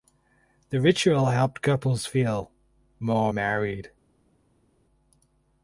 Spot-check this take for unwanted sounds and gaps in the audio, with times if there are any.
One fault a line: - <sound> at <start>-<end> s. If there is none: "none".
none